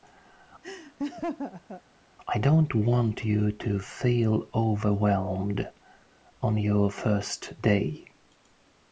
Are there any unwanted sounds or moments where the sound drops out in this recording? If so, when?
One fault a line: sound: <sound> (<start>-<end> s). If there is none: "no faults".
sound: laugh (0.6-1.8 s)